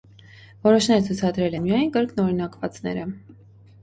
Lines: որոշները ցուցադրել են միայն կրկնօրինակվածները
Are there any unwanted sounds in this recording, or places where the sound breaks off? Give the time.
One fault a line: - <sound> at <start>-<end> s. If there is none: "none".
none